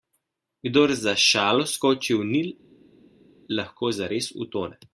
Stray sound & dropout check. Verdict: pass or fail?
pass